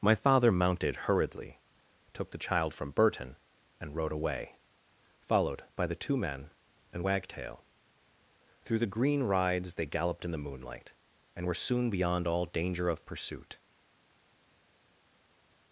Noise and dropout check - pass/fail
pass